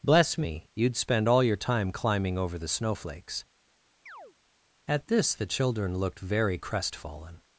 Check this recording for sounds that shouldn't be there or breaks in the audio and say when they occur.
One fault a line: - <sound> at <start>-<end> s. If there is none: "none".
- chirp at 4.1-4.4 s